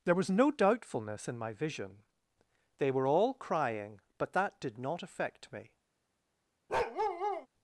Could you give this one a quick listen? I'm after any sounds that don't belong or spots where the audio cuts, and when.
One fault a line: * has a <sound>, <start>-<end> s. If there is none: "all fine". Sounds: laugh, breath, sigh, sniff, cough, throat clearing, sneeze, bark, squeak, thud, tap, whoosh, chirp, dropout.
* has a bark, 6.7-7.5 s